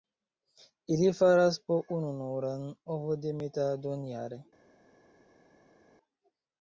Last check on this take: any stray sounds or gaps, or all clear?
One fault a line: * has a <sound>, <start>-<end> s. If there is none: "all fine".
all fine